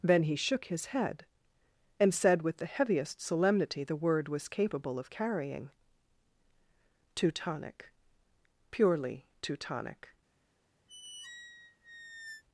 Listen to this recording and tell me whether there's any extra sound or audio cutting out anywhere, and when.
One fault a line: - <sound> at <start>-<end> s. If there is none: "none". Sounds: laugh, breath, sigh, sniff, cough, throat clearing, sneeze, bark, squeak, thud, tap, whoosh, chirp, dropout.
- squeak at 10.9-12.4 s